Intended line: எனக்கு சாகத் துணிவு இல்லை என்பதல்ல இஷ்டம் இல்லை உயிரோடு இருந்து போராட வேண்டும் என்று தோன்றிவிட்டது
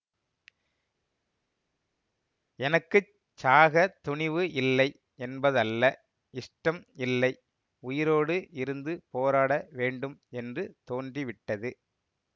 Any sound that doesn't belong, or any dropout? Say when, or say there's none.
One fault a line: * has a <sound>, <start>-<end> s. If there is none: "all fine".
all fine